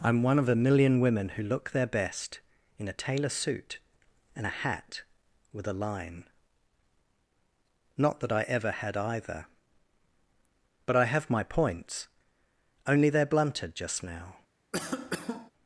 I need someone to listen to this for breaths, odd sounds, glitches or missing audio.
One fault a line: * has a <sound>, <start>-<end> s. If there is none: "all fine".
* has a cough, 14.7-15.5 s